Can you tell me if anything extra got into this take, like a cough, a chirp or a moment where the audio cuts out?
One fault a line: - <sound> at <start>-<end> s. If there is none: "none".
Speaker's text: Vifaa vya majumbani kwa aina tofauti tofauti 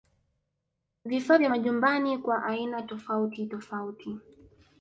none